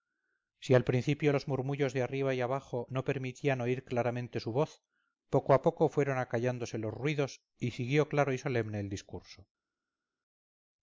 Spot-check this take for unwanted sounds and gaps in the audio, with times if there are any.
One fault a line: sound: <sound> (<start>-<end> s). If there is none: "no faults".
no faults